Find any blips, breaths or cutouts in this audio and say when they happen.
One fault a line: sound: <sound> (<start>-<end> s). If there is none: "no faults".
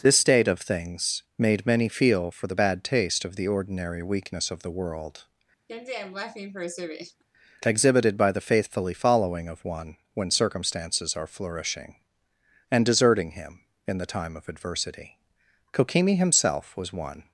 sound: laugh (5.7-7.2 s)